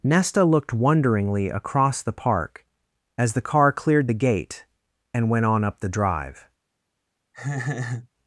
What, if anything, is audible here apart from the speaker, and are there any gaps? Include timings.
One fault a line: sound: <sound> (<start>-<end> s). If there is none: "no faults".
sound: laugh (7.3-8.1 s)